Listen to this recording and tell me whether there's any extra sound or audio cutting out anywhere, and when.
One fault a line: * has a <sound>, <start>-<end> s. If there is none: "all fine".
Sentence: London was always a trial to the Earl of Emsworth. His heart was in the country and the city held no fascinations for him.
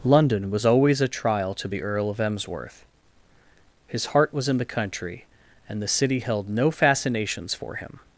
all fine